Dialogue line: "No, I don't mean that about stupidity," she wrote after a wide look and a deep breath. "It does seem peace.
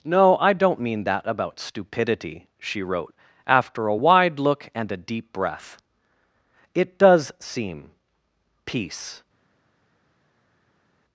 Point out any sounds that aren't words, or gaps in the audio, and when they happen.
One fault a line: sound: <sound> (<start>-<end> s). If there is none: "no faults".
no faults